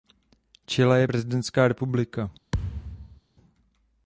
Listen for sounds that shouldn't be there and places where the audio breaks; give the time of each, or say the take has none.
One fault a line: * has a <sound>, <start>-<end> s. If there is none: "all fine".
* has a thud, 2.5-3.2 s